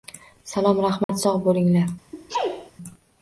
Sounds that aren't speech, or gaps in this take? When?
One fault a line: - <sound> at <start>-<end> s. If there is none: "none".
- dropout at 1.0-1.1 s
- sneeze at 2.1-2.7 s